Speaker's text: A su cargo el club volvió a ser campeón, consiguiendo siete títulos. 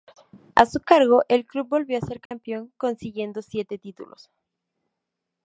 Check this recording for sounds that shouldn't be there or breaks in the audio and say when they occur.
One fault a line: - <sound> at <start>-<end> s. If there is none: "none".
- dropout at 2.3-2.3 s